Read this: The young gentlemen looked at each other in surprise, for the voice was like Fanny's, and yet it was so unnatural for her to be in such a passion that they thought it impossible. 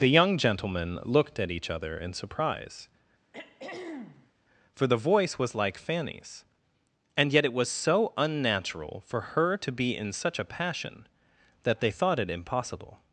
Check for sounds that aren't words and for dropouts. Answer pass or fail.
fail